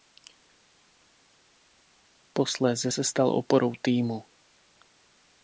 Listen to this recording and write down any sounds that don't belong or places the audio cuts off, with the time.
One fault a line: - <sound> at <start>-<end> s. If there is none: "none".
none